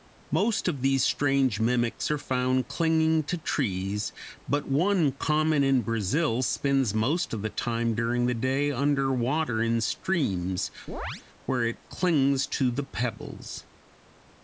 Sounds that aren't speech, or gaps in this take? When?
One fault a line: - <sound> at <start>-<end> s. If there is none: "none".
- chirp at 10.9-11.2 s